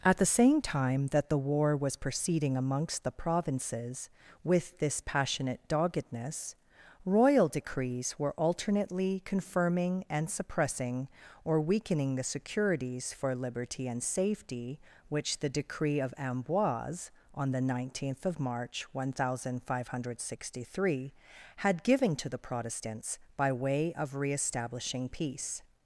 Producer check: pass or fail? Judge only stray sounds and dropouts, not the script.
pass